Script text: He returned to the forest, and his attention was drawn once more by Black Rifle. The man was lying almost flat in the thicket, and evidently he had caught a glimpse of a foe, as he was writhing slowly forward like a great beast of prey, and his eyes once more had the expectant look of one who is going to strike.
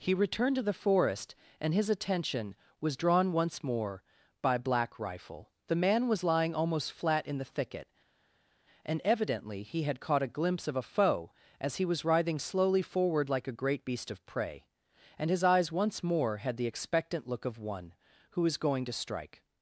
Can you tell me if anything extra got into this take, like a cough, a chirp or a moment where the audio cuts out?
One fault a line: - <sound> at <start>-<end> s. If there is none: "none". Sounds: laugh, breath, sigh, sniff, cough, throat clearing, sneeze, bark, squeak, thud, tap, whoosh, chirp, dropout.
none